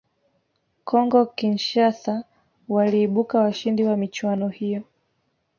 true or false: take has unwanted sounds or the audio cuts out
false